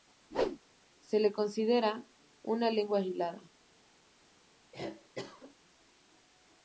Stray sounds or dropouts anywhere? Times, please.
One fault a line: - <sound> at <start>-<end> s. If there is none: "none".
- whoosh at 0.3-0.6 s
- cough at 4.7-5.6 s